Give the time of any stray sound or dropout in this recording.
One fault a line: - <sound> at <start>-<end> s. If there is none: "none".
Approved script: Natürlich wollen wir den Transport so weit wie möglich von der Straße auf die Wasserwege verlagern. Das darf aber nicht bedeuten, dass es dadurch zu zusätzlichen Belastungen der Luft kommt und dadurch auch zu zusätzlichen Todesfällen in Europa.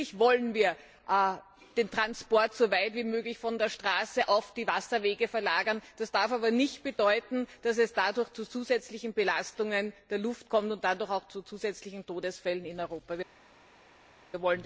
none